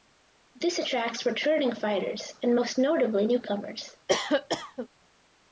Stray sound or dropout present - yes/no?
yes